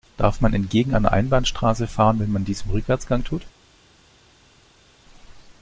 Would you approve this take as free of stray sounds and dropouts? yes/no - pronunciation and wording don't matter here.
yes